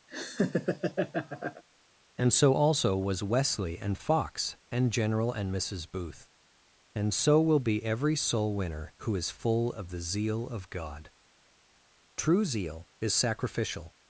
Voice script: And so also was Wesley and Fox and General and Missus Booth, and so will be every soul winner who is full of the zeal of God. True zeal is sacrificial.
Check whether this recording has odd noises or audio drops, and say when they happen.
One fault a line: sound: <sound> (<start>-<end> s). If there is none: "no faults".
sound: laugh (0.1-1.6 s)